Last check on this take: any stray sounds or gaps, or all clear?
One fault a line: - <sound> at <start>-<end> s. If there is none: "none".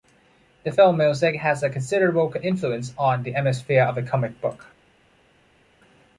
none